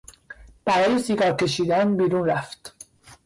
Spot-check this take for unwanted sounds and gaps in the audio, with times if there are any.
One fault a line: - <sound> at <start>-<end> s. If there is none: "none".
none